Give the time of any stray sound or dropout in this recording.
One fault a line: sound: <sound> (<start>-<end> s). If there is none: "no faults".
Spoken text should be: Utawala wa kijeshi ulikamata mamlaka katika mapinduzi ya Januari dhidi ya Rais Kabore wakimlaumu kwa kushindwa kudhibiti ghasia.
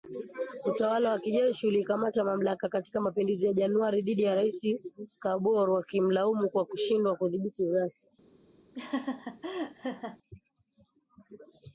sound: laugh (8.7-10.2 s)